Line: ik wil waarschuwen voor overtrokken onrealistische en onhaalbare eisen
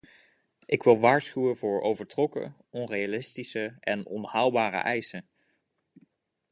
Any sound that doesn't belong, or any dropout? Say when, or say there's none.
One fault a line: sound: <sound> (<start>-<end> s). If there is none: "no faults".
no faults